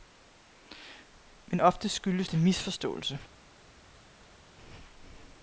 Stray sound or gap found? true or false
false